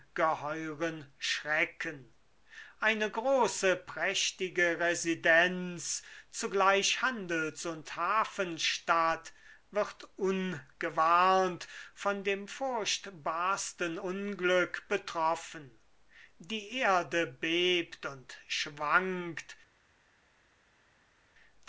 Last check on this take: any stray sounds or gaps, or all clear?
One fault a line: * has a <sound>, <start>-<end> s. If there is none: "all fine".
all fine